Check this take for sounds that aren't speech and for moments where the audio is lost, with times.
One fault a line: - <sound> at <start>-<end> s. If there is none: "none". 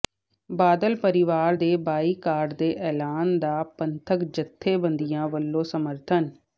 none